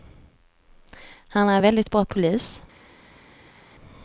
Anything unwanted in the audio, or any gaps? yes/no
no